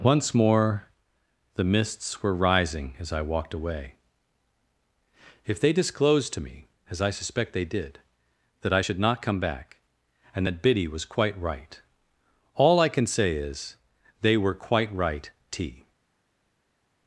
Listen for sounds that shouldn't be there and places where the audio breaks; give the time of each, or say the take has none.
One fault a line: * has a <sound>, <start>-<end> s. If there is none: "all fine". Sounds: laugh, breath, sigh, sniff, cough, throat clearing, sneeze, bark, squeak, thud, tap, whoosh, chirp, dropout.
all fine